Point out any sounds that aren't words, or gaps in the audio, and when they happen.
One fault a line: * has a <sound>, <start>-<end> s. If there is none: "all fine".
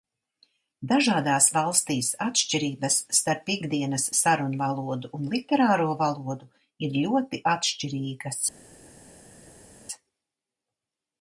all fine